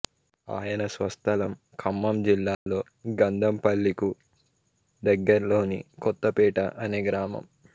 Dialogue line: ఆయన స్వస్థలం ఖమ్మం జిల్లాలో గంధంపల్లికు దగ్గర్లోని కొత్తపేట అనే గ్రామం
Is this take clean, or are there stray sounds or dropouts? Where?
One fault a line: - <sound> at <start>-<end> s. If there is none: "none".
- dropout at 2.5-2.7 s